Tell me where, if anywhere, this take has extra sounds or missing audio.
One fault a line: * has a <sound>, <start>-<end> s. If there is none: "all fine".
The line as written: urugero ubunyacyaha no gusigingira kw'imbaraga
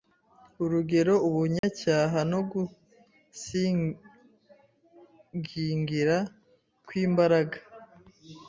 * has a dropout, 1.6-1.6 s